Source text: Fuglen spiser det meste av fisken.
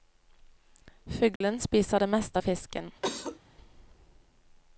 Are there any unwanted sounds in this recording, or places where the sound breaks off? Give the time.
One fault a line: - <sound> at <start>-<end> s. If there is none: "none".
- dropout at 1.4-1.4 s
- cough at 3.0-3.4 s